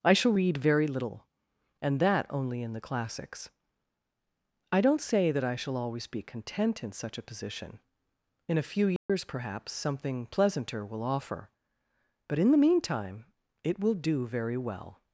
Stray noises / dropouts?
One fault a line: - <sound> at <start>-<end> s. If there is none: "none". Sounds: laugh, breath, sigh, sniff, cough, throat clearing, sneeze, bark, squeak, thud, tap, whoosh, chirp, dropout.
- dropout at 9.0-9.1 s